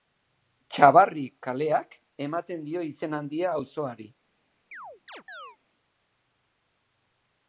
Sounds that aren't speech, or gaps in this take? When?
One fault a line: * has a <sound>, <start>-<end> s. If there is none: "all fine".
* has a chirp, 4.7-5.6 s